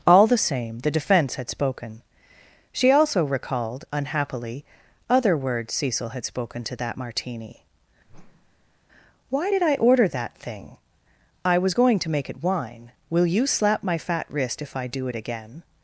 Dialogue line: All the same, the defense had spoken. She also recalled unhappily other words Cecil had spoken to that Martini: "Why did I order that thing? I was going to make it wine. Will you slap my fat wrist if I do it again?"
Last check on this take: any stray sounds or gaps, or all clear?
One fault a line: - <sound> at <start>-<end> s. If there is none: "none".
- whoosh at 8.1-8.8 s